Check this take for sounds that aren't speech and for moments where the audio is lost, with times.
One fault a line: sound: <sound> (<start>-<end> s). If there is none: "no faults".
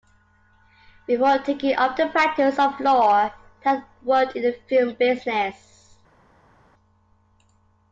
no faults